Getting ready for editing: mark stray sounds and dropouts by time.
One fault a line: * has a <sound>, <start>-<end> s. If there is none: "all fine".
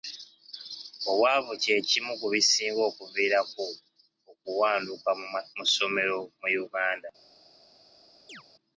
* has a chirp, 8.3-8.4 s